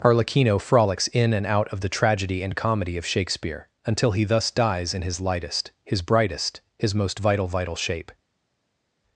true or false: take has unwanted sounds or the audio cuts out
false